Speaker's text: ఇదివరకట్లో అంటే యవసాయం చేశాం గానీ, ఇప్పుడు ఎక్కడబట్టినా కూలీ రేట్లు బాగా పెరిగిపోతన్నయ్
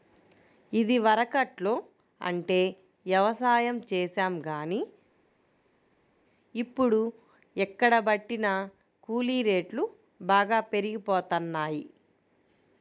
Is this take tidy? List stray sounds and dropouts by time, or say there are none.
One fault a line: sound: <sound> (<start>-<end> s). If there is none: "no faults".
no faults